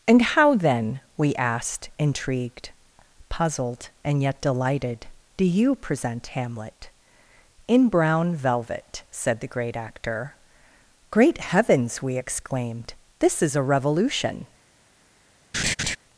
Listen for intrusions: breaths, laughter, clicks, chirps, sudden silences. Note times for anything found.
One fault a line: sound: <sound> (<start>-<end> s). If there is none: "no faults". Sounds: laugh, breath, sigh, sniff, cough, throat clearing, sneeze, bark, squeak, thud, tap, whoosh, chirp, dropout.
sound: laugh (15.5-16.0 s)